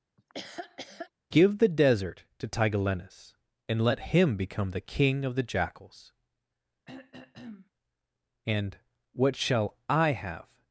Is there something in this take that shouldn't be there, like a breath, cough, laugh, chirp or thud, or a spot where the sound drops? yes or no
yes